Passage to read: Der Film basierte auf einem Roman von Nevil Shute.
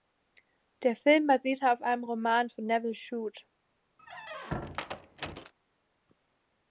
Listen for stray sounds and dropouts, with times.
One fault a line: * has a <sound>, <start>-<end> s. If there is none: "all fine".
* has a squeak, 4.0-5.5 s